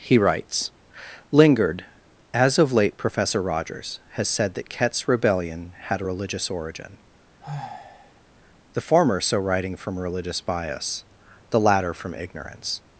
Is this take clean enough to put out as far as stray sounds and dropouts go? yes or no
no